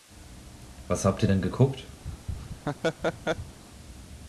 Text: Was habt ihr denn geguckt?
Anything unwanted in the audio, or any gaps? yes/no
yes